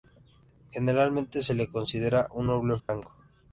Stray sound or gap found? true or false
true